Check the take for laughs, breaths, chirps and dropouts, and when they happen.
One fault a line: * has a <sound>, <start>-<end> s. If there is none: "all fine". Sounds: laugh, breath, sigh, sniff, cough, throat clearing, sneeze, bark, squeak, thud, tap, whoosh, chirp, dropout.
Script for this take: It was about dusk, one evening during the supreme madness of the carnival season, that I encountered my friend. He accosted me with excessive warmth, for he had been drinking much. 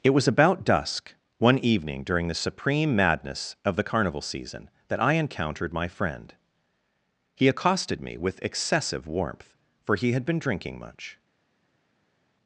all fine